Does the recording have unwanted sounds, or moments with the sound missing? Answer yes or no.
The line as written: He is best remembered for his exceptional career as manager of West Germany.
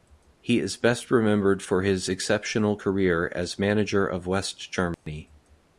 yes